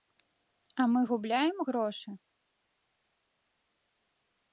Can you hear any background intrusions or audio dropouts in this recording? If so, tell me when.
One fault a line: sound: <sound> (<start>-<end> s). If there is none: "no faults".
no faults